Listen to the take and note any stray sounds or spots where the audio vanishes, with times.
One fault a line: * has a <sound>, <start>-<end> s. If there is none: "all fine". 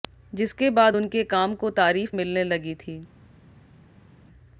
all fine